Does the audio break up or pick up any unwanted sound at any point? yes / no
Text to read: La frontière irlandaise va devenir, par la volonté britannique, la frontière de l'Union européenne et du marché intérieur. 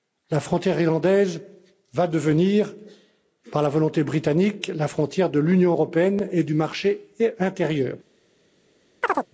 yes